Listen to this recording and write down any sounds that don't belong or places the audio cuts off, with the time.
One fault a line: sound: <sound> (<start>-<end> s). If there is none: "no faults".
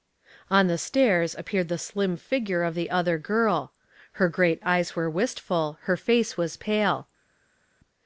no faults